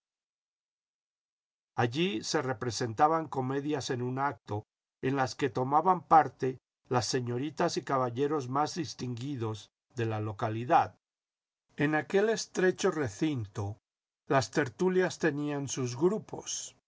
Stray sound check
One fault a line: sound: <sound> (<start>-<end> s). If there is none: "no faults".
no faults